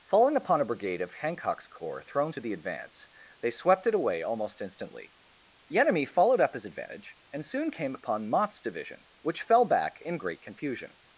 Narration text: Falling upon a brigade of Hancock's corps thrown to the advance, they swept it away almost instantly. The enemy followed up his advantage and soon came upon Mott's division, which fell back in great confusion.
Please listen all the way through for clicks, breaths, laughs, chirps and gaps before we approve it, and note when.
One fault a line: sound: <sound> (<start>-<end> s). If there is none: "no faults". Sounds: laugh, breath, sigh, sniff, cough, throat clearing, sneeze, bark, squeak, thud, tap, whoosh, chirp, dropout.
no faults